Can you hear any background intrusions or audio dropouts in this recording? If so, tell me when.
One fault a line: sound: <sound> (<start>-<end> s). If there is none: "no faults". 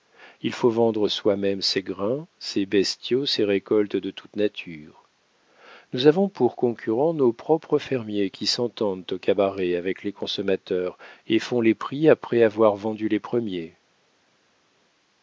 no faults